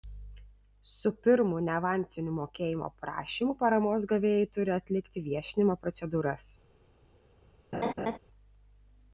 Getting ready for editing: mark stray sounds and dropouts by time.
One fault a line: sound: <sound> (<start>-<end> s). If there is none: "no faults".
sound: laugh (7.7-8.2 s)